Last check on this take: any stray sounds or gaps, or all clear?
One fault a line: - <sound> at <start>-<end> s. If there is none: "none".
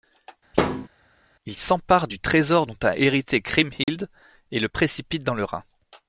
- thud at 0.5-0.9 s
- dropout at 3.8-3.9 s